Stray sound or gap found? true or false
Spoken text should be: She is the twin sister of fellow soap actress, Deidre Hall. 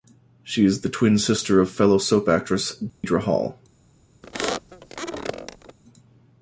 true